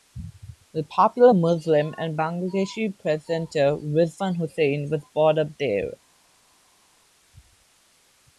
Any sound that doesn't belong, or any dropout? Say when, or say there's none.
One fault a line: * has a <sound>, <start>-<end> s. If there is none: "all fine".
all fine